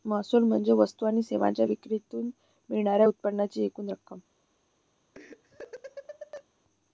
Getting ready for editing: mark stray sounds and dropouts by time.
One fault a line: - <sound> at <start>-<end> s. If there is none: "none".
- laugh at 5.1-6.4 s